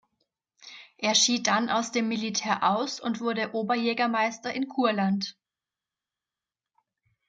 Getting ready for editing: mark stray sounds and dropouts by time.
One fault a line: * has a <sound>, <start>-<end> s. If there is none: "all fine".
all fine